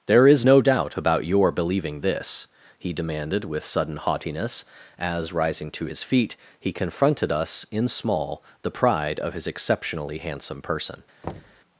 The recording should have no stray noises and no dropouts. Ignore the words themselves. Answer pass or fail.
fail